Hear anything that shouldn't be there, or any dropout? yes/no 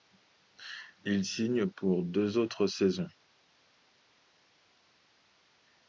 no